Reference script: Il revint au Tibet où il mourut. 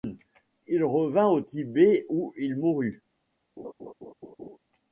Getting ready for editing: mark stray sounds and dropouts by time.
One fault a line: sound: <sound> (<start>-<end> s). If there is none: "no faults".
sound: laugh (3.6-4.6 s)